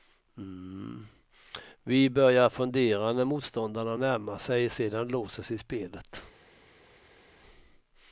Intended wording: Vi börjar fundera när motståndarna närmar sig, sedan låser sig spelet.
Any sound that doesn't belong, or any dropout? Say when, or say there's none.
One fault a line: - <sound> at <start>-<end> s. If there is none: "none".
none